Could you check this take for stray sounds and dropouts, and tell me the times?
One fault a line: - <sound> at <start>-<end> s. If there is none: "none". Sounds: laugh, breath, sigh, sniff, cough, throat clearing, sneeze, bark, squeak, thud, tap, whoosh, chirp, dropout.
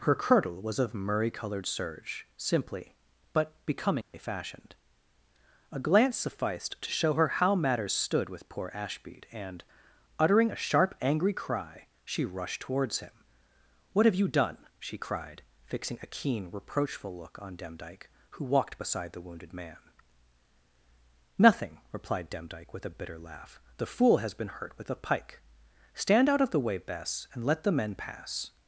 - dropout at 4.0-4.1 s